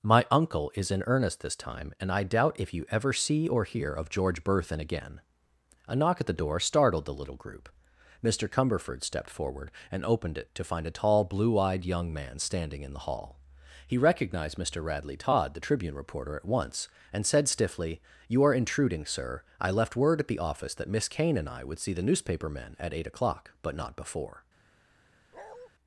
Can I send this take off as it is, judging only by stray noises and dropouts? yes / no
no